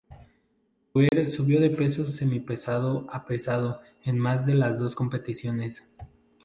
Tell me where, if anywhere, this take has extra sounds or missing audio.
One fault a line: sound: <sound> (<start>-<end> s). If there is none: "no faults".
sound: dropout (1.1-1.1 s)